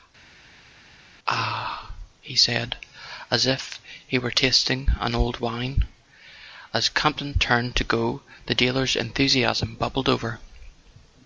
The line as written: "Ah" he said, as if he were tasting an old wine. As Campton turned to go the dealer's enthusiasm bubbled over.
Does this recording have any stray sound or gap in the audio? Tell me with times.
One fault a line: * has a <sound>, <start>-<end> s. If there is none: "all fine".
all fine